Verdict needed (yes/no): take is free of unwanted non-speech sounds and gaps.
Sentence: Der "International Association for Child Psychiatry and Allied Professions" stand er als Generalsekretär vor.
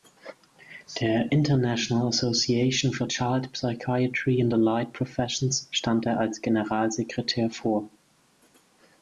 yes